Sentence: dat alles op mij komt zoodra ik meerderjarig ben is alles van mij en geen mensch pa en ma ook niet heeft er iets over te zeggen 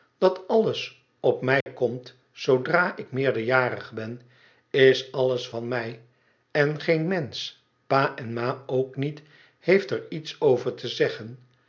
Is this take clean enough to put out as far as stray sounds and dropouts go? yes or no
no